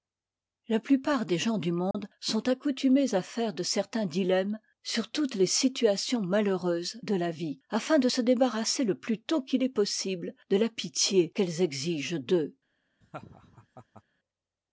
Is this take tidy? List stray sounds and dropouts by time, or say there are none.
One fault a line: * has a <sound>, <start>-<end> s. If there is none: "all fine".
* has a dropout, 1.9-1.9 s
* has a laugh, 13.0-14.0 s